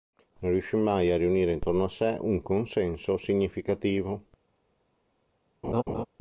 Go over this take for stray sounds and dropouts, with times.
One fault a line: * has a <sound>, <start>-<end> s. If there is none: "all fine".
* has a laugh, 5.6-6.1 s